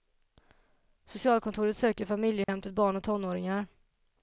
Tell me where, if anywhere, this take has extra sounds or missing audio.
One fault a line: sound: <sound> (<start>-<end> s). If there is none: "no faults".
sound: dropout (2.4-2.5 s)